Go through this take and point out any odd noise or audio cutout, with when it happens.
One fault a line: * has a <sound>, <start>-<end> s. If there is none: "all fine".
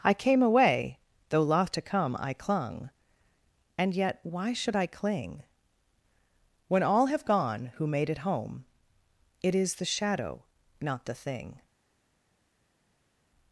all fine